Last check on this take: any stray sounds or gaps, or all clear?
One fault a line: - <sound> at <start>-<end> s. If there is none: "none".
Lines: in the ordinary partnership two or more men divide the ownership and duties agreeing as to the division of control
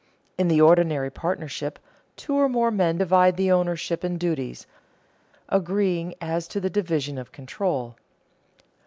none